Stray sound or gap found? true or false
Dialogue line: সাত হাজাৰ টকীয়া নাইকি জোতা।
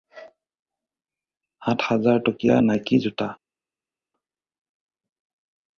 false